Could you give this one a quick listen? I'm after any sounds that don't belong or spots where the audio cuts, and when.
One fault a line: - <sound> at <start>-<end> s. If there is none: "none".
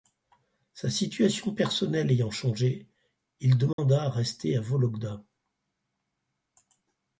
- dropout at 3.7-3.8 s